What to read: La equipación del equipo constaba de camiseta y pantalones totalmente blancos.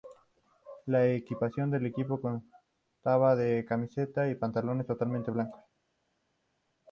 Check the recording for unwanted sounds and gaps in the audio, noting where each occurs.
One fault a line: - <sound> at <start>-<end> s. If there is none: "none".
none